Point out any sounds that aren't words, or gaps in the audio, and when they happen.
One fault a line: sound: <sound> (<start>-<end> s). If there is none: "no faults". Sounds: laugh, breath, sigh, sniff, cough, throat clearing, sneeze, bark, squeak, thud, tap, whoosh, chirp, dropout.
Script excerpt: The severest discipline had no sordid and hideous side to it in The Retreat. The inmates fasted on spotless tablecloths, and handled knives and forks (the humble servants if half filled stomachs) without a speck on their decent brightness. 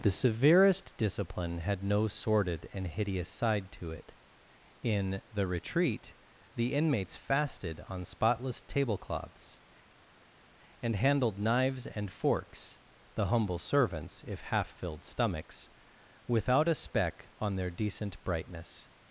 no faults